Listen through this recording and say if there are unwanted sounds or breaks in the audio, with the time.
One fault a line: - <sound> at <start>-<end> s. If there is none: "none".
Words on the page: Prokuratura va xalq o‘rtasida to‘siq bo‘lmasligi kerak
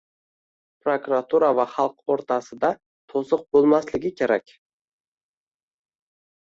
none